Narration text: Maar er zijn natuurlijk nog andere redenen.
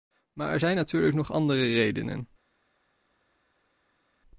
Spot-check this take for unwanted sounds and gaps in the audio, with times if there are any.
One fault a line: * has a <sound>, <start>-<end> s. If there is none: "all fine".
all fine